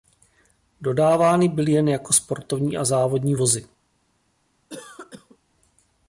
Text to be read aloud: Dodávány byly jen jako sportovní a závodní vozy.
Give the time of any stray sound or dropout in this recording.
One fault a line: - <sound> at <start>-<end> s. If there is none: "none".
- cough at 4.7-5.4 s